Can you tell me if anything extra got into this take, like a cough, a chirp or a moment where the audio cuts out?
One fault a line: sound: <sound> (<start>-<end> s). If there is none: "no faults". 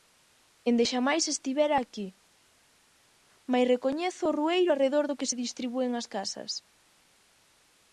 no faults